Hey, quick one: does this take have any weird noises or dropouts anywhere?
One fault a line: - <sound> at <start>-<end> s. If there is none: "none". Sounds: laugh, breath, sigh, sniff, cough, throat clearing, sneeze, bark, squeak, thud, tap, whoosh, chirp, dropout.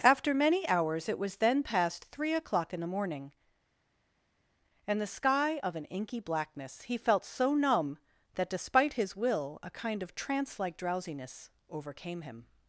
none